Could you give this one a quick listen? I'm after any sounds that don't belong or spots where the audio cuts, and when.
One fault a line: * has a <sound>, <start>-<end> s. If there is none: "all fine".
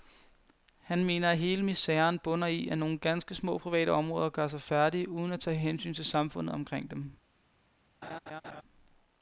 * has a laugh, 8.0-8.6 s